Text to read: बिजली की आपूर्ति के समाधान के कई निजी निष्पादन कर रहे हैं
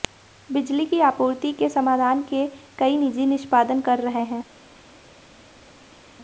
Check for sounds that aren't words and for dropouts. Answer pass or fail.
pass